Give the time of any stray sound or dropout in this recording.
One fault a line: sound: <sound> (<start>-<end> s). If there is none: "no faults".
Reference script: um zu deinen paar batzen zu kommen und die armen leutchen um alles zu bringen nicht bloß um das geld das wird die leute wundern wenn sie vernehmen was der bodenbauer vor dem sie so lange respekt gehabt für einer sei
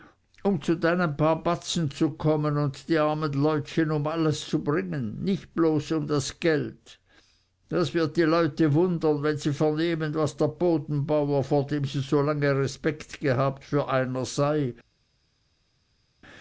no faults